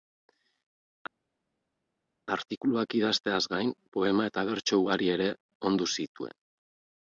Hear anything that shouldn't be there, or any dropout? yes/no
no